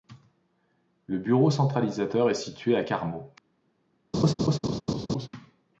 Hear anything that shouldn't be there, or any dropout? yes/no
yes